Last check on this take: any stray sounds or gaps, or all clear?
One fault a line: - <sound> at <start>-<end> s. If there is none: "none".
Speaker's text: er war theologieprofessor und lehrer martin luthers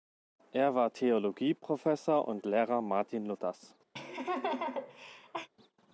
- laugh at 3.9-5.5 s